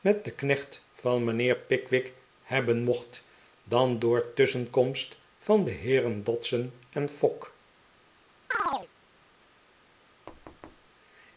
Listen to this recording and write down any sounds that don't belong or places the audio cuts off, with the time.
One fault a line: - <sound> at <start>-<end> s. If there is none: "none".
- chirp at 8.5-8.9 s
- thud at 10.3-10.9 s